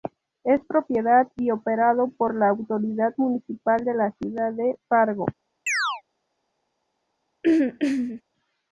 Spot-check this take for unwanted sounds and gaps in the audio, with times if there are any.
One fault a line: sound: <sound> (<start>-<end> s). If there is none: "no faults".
sound: chirp (5.7-6.0 s)
sound: throat clearing (7.4-8.2 s)